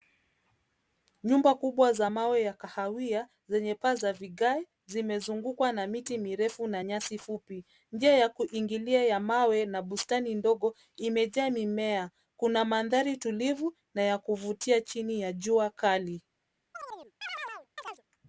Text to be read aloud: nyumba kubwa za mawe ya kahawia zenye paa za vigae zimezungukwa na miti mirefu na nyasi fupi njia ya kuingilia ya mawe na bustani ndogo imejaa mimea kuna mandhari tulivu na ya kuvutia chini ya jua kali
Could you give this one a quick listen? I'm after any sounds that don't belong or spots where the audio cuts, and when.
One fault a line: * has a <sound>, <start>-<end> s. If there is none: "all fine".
* has a chirp, 16.7-18.0 s